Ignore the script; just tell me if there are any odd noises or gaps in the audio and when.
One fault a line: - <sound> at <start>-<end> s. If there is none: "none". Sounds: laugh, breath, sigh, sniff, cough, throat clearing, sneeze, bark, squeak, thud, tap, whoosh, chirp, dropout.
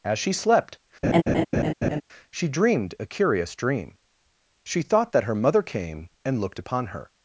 - laugh at 1.0-2.0 s